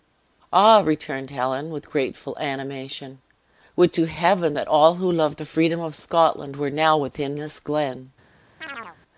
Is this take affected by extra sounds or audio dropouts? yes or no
yes